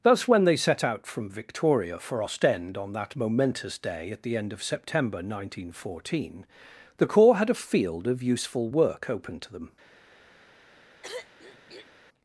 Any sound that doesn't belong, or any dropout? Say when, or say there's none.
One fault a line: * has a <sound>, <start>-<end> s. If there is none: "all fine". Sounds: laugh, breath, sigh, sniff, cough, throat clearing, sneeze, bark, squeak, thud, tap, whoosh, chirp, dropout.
* has a throat clearing, 11.0-11.9 s